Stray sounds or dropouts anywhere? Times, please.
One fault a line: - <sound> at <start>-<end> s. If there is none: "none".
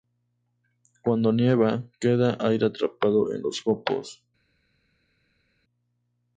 none